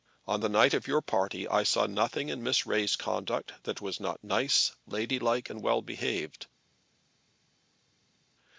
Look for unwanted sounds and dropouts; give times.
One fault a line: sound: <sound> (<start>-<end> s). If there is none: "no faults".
no faults